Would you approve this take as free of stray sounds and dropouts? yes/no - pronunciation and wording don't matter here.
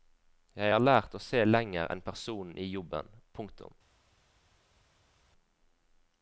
yes